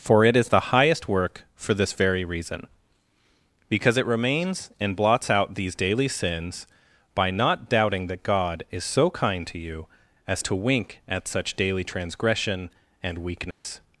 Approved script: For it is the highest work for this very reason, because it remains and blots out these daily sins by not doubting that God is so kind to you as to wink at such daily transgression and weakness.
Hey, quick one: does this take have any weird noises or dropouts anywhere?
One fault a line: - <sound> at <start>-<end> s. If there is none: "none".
- dropout at 13.5-13.6 s